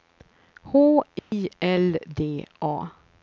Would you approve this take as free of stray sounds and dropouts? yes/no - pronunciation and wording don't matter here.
no